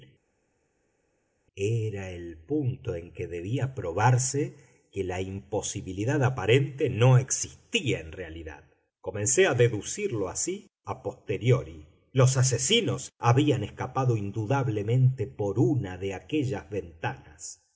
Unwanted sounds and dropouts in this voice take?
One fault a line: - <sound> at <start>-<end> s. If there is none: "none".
none